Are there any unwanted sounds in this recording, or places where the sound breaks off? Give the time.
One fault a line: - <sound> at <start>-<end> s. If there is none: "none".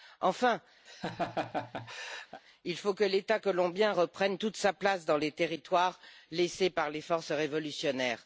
- laugh at 0.9-2.4 s